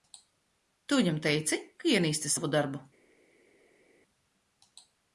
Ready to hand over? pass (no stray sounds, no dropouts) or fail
pass